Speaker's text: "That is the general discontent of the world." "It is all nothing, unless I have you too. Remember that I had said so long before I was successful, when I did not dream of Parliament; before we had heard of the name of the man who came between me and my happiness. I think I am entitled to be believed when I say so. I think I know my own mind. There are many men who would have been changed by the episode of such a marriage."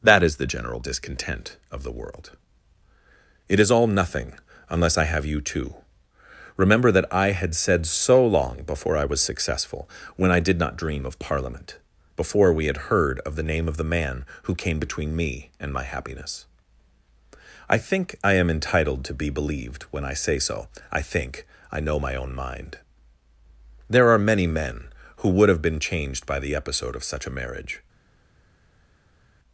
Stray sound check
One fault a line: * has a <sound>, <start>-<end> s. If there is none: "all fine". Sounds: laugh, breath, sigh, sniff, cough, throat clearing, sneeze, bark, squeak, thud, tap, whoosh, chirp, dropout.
all fine